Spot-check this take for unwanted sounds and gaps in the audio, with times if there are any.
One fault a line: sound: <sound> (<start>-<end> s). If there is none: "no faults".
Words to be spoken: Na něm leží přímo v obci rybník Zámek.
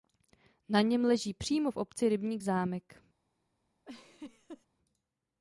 sound: laugh (3.9-4.7 s)